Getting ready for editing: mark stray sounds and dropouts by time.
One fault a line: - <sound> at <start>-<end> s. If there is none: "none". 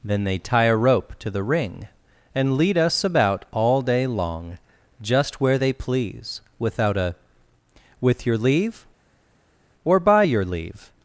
none